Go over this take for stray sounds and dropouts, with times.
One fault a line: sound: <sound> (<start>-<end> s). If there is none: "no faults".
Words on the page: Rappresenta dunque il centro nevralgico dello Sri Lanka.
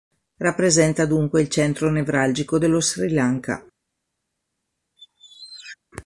sound: squeak (5.0-5.8 s)